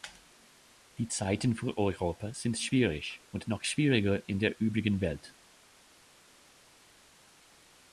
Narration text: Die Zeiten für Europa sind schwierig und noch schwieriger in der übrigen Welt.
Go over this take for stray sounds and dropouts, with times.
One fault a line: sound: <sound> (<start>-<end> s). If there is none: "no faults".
no faults